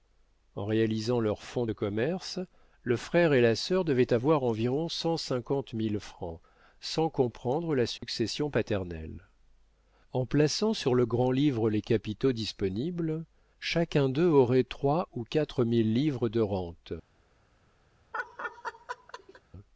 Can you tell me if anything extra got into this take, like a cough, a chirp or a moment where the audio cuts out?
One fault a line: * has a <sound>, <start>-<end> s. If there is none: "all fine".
* has a dropout, 8.0-8.0 s
* has a laugh, 18.1-19.4 s